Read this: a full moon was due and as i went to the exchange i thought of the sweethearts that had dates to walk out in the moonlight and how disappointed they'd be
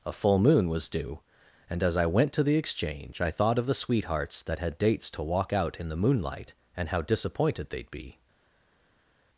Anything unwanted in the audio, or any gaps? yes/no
no